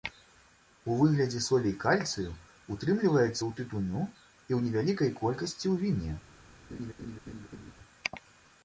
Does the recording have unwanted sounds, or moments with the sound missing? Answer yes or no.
yes